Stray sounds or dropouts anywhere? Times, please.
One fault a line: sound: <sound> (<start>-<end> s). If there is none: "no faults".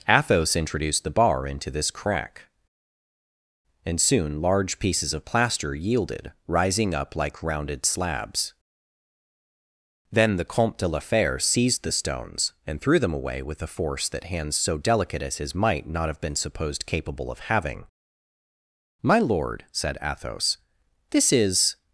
no faults